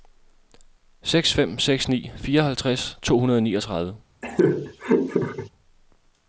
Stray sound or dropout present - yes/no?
yes